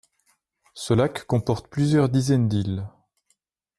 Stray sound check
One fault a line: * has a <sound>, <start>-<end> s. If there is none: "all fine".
all fine